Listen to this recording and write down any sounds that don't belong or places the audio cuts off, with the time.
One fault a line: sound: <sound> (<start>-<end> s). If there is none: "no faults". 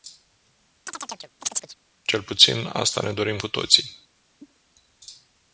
sound: chirp (0.9-1.8 s)
sound: cough (4.4-4.6 s)